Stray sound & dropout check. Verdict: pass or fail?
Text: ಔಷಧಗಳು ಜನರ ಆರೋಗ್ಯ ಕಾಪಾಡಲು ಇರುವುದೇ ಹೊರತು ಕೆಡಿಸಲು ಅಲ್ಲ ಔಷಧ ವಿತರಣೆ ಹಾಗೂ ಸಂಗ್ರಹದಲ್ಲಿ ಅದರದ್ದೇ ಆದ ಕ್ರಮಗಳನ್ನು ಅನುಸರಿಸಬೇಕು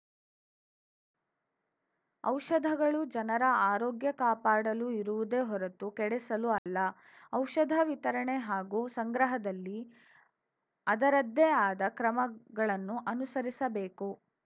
fail